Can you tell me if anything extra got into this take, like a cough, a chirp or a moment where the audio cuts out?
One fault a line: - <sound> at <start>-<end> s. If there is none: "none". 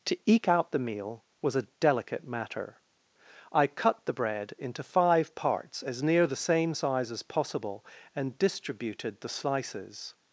none